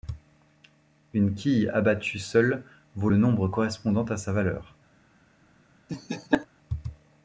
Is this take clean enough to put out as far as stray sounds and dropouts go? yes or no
no